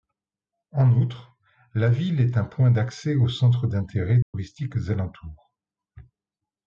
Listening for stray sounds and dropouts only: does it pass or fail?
fail